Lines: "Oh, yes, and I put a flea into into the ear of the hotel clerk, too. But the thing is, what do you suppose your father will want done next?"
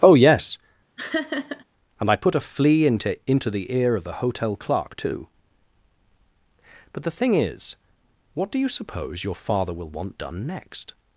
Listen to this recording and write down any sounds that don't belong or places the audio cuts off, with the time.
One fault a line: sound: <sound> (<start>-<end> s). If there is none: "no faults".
sound: laugh (1.0-1.6 s)